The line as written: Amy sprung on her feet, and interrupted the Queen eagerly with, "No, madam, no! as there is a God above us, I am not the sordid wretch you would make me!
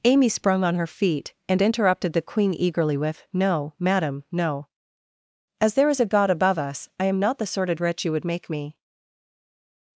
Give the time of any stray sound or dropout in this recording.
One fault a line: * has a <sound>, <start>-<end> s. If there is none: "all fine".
all fine